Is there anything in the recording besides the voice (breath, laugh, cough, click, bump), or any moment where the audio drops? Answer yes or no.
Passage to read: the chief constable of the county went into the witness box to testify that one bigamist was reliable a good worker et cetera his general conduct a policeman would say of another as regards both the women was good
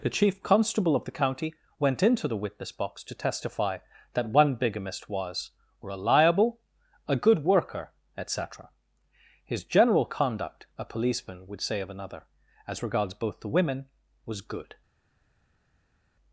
no